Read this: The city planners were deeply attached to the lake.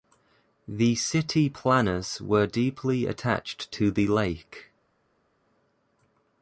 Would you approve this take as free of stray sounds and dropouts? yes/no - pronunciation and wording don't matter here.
yes